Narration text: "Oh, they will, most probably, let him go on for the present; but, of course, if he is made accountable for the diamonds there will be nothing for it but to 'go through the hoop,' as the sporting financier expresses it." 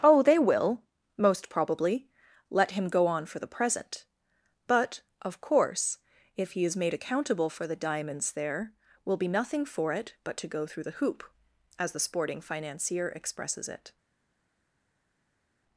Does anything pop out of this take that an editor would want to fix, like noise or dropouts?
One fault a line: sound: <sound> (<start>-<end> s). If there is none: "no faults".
no faults